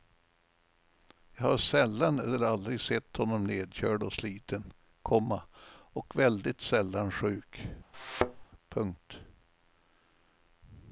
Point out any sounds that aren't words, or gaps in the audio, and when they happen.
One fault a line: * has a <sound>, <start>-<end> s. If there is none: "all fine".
* has a thud, 7.9-8.5 s